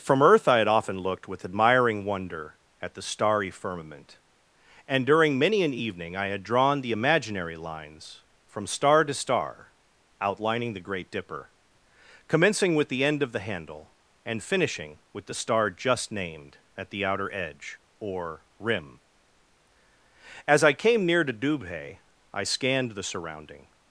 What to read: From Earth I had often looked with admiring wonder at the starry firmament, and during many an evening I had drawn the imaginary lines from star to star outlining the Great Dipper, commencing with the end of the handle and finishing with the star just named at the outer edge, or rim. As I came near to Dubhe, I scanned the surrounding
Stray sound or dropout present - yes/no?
no